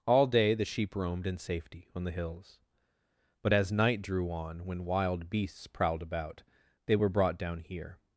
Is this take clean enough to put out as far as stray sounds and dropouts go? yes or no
yes